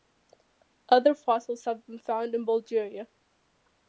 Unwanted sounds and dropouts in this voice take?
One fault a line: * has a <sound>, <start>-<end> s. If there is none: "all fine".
all fine